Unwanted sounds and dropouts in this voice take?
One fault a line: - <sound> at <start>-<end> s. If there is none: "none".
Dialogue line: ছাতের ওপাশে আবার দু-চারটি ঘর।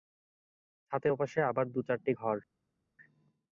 none